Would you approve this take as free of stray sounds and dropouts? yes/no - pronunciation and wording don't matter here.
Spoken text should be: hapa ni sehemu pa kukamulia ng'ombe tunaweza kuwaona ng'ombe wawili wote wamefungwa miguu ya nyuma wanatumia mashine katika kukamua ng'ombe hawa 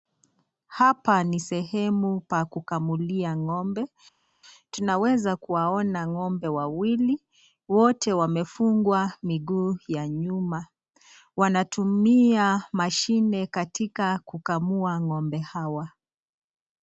yes